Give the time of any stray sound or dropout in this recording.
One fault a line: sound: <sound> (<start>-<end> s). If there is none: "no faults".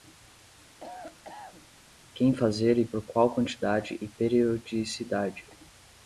sound: cough (0.8-1.7 s)